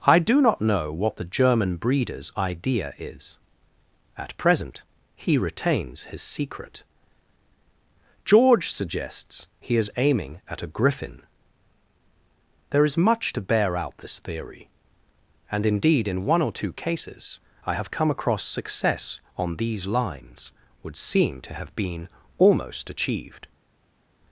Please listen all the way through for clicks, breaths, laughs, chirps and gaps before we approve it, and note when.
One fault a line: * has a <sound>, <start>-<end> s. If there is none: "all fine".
all fine